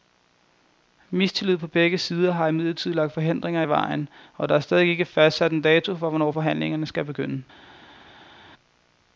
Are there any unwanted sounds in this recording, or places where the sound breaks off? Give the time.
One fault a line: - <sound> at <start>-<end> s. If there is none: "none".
none